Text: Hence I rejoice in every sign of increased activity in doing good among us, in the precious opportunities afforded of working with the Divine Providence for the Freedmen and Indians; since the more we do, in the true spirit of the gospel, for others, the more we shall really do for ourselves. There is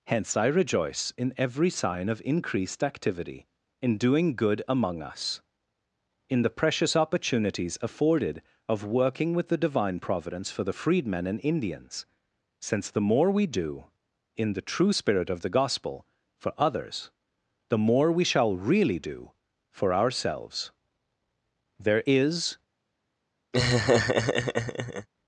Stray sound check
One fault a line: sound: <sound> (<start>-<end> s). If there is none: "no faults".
sound: laugh (23.5-25.1 s)